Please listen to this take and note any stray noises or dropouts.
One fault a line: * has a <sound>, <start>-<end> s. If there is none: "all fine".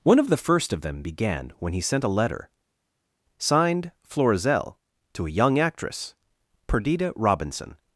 all fine